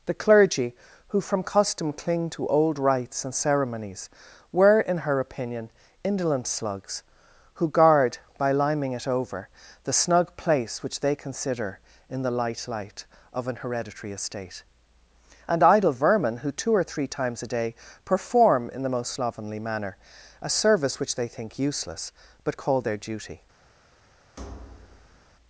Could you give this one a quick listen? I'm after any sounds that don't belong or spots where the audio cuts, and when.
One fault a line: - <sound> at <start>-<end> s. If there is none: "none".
- thud at 24.4-25.3 s